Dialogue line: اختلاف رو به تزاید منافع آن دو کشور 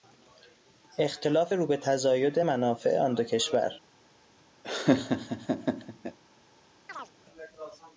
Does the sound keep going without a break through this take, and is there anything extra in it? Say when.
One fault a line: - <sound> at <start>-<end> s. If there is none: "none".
- laugh at 4.6-6.2 s
- chirp at 6.9-7.1 s